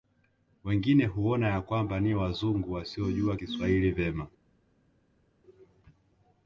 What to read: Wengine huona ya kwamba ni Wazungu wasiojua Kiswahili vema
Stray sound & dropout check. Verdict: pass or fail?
pass